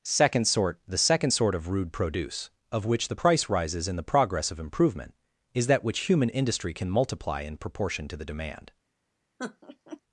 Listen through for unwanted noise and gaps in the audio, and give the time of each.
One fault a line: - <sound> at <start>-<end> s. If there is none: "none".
- laugh at 9.4-10.0 s